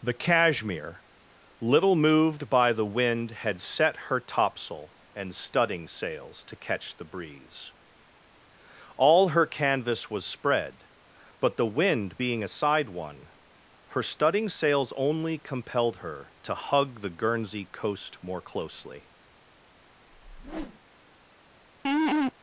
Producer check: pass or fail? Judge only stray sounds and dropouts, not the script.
fail